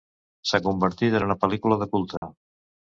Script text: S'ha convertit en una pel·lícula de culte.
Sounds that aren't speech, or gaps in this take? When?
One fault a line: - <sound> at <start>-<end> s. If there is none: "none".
- dropout at 2.2-2.2 s